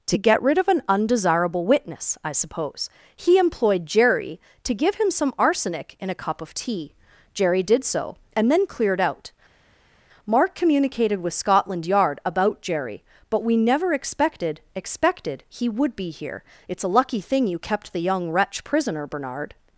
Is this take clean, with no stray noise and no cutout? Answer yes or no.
yes